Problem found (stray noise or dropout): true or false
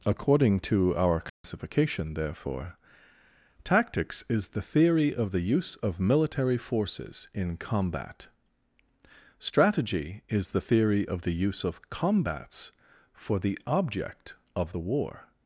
true